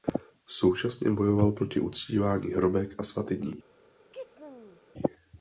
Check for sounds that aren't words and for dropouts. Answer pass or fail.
fail